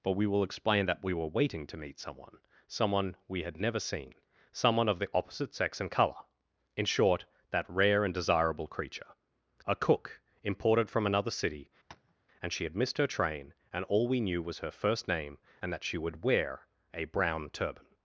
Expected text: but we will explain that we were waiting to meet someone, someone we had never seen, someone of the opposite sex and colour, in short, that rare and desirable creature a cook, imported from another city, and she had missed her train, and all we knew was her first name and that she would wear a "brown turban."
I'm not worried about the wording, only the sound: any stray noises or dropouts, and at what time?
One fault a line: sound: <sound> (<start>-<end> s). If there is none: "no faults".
sound: tap (11.9-12.1 s)